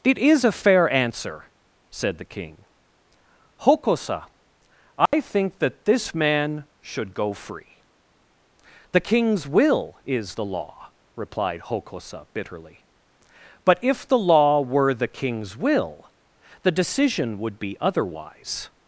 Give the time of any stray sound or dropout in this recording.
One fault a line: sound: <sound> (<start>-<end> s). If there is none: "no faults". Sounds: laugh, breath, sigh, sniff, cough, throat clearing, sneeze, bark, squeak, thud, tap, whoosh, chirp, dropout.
sound: dropout (5.1-5.1 s)